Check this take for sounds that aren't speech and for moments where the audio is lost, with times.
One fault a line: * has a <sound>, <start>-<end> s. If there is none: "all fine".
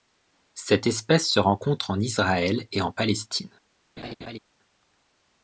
* has a laugh, 4.0-4.4 s